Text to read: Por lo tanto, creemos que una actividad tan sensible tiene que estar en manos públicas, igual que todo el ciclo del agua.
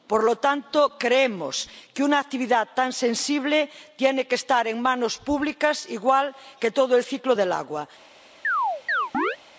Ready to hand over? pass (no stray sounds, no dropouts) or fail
fail